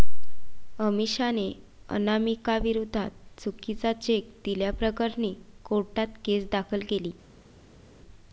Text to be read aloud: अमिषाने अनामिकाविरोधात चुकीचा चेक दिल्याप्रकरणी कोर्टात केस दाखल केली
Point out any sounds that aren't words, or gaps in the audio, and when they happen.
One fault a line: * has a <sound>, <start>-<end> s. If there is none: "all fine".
all fine